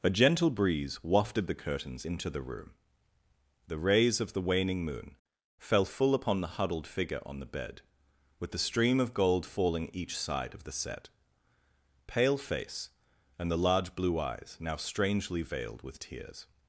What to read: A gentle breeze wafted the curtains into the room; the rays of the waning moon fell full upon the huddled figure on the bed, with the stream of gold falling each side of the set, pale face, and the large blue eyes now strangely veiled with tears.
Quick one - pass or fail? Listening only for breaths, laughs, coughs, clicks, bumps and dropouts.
pass